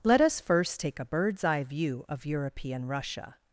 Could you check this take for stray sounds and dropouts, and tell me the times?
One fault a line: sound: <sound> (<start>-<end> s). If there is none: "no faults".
no faults